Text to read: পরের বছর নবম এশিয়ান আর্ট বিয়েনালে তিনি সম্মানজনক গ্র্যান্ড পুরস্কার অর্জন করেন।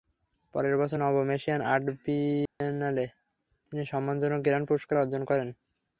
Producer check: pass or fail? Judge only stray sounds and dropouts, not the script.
fail